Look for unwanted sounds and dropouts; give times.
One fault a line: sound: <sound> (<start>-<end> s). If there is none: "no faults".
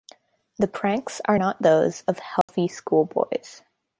sound: dropout (2.4-2.5 s)